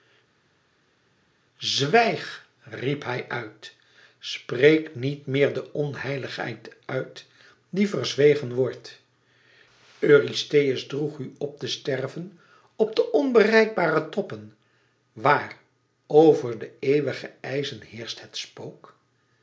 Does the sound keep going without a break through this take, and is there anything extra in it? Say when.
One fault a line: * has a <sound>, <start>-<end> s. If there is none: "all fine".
all fine